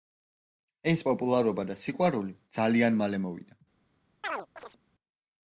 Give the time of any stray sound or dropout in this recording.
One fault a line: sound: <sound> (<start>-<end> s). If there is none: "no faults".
sound: chirp (4.2-4.8 s)